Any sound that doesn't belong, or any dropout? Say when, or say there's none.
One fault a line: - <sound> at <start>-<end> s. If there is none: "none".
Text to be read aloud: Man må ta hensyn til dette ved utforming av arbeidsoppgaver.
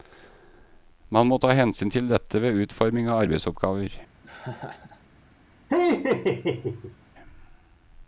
- laugh at 4.2-5.0 s
- laugh at 5.7-7.0 s